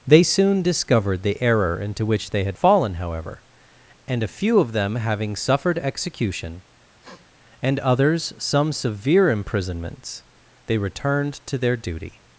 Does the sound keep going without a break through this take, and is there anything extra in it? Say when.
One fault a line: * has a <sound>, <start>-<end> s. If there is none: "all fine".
* has a sniff, 7.0-7.3 s